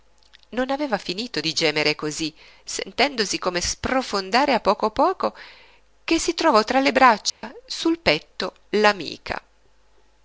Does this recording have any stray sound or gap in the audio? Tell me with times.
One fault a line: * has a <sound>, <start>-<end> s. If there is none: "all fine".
* has a dropout, 7.3-7.4 s